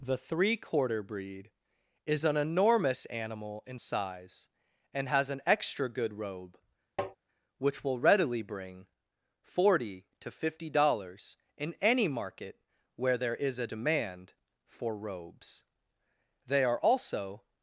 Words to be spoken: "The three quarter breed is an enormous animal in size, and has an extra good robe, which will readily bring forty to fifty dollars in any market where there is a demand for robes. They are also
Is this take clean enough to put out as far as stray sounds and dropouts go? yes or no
no